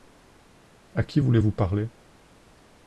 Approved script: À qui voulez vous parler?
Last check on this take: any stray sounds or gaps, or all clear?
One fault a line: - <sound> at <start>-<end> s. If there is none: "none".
none